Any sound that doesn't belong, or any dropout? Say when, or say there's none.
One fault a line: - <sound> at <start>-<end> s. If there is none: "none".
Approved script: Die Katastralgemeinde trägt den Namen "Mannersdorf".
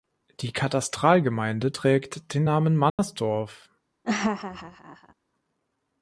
- dropout at 2.9-3.0 s
- laugh at 4.0-5.1 s